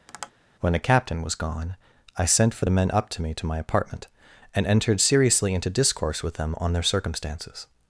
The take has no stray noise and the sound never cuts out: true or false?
false